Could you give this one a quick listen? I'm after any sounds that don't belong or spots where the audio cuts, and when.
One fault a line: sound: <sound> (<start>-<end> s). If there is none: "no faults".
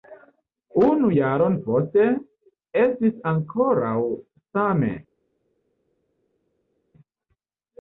no faults